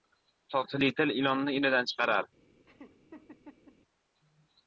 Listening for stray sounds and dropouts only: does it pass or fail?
fail